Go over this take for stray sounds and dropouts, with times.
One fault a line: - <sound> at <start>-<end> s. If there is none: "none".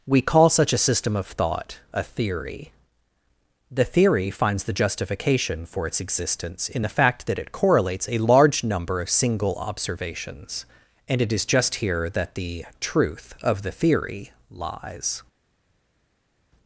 none